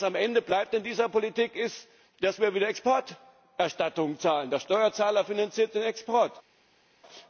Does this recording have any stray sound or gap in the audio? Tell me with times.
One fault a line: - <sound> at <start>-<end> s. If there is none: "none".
none